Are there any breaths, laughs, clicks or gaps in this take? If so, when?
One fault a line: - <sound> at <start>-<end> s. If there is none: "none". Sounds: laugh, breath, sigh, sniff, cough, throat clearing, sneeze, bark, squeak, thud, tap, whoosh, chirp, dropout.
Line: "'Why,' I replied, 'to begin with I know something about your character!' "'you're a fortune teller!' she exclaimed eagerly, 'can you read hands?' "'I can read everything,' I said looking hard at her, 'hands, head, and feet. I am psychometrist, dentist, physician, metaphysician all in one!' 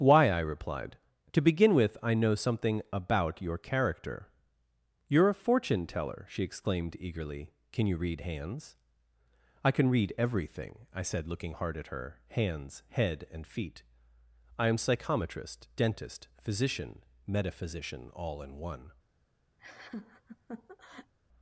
- laugh at 19.6-21.1 s